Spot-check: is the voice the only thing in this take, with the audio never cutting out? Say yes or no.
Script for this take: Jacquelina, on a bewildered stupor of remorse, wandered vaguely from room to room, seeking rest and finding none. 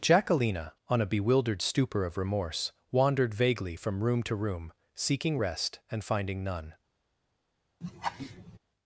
no